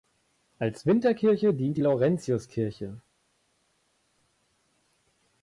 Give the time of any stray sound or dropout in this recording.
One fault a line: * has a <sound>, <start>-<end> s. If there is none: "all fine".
all fine